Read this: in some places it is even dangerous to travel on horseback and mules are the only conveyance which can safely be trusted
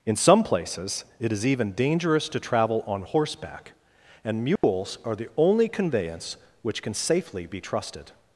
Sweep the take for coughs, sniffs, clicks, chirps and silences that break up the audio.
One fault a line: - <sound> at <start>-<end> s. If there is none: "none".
- dropout at 4.6-4.6 s